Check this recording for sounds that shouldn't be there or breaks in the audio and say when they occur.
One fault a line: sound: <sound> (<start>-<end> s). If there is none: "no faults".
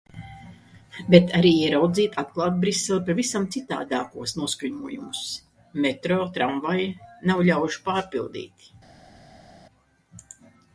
no faults